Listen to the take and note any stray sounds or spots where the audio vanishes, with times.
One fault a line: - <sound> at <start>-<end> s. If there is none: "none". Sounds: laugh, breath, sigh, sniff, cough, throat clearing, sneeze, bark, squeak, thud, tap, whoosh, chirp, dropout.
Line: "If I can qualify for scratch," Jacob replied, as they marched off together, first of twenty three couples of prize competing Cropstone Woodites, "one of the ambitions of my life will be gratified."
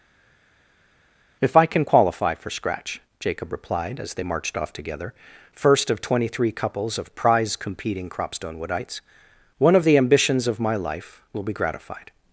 none